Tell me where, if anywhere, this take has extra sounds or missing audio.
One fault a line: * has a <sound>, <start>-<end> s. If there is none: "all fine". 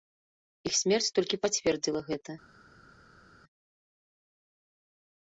all fine